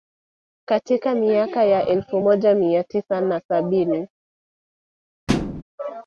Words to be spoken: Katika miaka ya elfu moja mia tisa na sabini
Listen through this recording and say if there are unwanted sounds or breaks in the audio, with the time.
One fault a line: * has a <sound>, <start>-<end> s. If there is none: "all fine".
* has a thud, 5.3-5.6 s